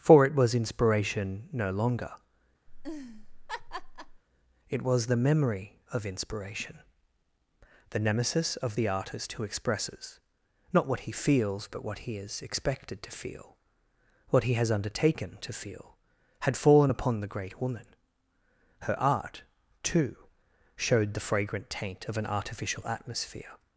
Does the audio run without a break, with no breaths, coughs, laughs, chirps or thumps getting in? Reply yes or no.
no